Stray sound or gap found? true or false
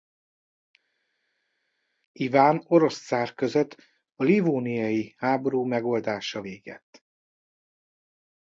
false